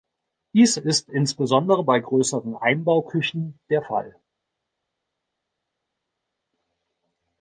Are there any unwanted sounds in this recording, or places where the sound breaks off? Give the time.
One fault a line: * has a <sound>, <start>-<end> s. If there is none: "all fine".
all fine